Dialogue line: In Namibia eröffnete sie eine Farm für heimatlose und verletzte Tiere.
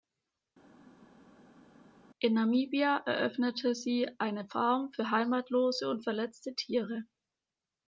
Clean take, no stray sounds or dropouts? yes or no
yes